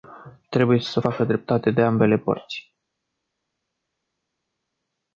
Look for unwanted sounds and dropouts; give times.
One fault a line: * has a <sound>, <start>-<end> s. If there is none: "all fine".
all fine